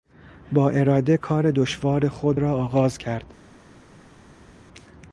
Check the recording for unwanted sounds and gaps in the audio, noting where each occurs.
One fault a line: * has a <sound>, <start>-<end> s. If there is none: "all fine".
all fine